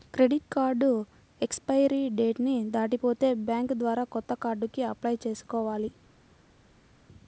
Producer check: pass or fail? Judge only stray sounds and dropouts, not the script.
pass